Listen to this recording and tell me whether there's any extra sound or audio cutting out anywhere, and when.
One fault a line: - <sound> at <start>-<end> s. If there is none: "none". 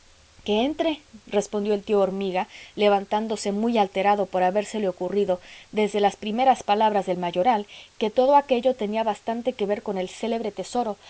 none